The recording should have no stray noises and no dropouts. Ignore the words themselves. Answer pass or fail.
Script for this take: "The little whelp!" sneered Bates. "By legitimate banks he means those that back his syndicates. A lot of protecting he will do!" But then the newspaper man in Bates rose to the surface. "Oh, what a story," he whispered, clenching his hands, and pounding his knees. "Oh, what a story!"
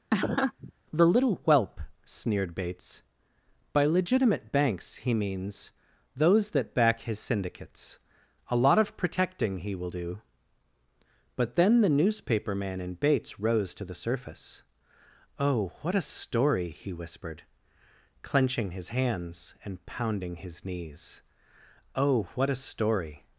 fail